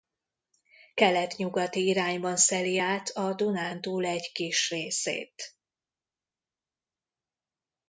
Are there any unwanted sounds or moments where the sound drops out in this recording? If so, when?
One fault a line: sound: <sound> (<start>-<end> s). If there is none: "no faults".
no faults